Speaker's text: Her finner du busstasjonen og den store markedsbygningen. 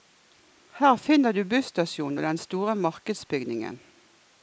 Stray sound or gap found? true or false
false